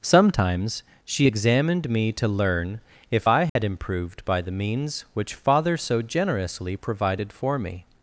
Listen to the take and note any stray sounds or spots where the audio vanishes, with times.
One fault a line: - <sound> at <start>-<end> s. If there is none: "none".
- dropout at 3.5-3.6 s